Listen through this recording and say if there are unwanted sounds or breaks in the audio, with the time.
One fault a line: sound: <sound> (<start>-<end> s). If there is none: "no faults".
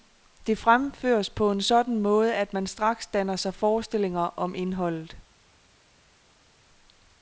no faults